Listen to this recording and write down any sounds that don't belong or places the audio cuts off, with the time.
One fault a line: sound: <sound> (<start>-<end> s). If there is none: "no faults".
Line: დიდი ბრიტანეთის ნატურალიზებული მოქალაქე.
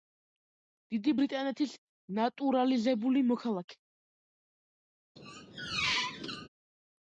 sound: squeak (5.2-6.5 s)